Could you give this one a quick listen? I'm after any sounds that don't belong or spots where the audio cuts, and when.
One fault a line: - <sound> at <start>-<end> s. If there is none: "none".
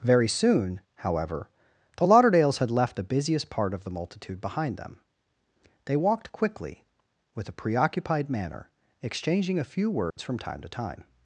- dropout at 10.1-10.2 s